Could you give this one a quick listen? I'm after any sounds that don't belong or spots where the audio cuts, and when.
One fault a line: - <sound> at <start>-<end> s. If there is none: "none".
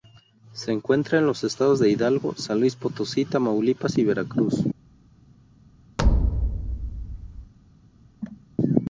- thud at 6.0-7.5 s
- cough at 8.2-8.5 s